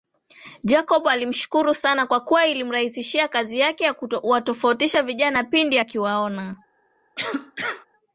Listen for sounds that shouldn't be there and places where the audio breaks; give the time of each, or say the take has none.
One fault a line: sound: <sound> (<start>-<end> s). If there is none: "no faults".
sound: cough (7.2-7.9 s)